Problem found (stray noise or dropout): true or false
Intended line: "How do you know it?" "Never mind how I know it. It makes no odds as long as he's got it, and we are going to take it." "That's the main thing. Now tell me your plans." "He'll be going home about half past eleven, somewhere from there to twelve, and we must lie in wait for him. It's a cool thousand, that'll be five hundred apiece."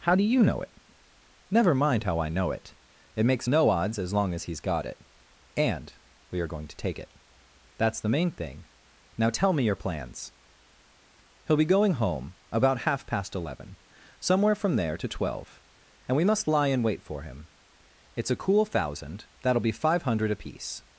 false